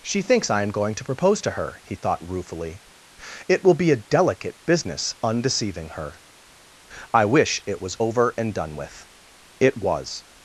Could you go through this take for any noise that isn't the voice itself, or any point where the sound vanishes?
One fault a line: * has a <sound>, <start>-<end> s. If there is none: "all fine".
all fine